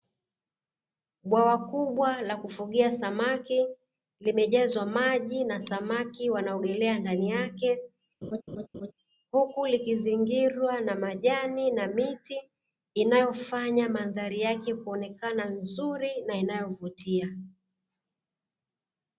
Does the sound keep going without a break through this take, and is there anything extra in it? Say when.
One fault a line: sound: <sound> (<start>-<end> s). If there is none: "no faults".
sound: laugh (8.2-8.9 s)